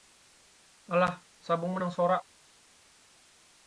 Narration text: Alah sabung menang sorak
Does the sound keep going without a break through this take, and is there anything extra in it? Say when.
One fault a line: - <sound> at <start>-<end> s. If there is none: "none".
none